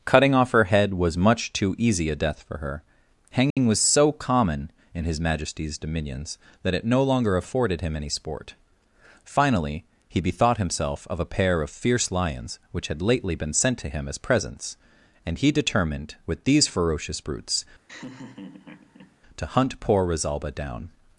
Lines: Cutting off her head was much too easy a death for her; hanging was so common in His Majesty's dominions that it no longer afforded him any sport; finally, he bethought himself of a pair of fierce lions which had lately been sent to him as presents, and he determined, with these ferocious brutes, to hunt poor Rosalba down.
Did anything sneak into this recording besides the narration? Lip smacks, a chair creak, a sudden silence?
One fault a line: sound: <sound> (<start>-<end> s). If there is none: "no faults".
sound: dropout (3.5-3.6 s)
sound: laugh (17.9-19.2 s)